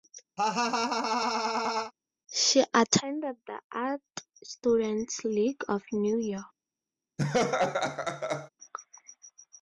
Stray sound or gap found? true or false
true